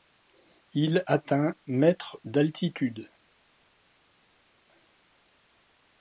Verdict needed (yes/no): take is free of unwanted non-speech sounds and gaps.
yes